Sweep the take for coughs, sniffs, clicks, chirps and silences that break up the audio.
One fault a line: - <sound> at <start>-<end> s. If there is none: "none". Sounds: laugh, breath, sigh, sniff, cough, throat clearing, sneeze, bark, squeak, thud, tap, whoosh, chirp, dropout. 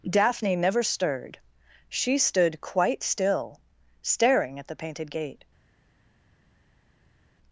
none